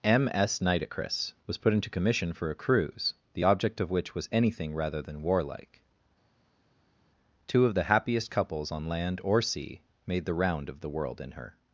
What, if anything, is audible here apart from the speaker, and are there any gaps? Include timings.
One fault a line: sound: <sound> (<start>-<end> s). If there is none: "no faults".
no faults